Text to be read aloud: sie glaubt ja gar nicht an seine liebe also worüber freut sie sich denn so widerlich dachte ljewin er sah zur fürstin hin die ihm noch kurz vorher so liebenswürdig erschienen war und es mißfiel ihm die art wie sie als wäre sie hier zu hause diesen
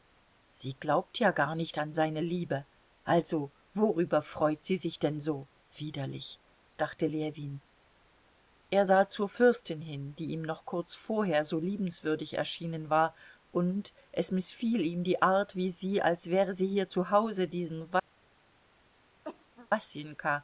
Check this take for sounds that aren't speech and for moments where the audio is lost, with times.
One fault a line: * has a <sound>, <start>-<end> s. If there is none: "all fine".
* has a cough, 19.2-19.7 s